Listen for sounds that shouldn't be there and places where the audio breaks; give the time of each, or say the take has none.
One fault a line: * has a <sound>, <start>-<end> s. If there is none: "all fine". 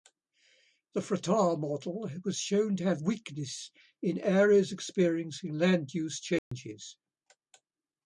* has a dropout, 6.4-6.5 s